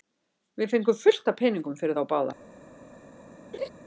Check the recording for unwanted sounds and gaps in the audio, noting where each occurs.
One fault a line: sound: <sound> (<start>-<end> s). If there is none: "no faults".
sound: laugh (3.5-3.7 s)